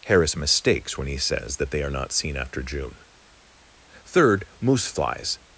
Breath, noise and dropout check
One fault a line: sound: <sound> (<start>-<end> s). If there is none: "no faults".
no faults